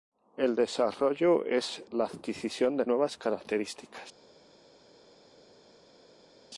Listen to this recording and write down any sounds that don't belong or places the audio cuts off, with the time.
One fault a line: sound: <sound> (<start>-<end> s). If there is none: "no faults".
no faults